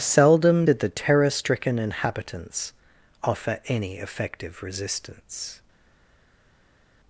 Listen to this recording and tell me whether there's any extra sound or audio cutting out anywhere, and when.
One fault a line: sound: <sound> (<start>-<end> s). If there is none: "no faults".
no faults